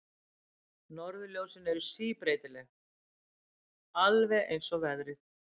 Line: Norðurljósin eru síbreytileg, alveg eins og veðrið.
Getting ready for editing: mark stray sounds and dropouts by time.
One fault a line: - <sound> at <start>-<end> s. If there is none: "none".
none